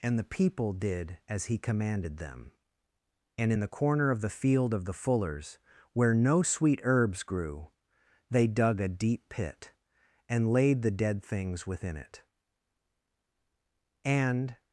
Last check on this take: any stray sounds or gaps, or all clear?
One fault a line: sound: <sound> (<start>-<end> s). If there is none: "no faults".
no faults